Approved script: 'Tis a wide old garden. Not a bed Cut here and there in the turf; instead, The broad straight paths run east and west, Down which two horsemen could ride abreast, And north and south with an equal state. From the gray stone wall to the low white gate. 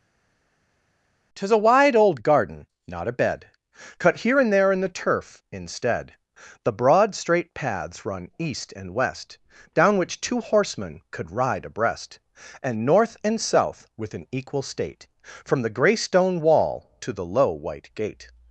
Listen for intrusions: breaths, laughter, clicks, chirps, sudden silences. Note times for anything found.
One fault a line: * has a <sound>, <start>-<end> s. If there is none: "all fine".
all fine